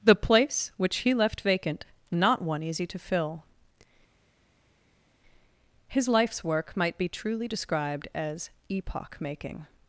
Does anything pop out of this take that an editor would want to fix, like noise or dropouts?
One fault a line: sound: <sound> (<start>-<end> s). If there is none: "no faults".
no faults